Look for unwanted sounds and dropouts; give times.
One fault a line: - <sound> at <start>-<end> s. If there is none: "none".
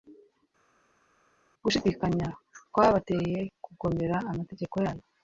none